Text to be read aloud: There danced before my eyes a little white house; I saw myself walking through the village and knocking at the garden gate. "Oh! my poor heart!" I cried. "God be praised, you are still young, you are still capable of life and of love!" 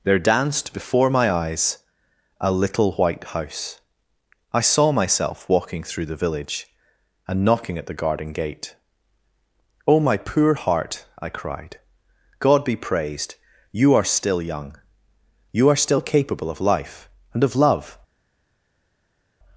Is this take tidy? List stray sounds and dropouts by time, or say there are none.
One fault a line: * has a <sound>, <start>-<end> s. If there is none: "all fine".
all fine